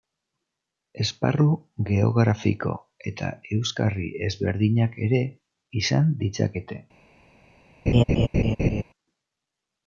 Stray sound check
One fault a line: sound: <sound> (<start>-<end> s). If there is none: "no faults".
sound: laugh (7.9-8.8 s)